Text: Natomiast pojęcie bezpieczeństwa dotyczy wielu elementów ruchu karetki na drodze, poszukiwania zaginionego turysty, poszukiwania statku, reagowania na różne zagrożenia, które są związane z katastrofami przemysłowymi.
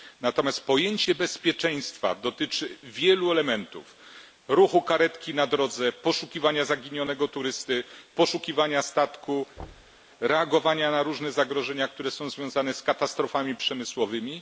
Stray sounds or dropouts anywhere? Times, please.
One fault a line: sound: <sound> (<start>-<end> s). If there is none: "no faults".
sound: thud (9.6-10.0 s)